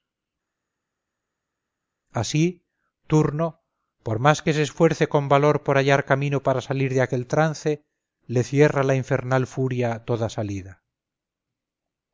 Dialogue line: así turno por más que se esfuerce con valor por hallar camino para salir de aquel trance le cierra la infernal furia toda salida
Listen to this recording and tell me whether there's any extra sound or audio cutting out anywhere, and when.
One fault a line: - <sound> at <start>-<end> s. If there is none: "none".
none